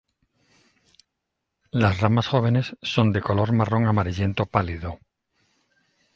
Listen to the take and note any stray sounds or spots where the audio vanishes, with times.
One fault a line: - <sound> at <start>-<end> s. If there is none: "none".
none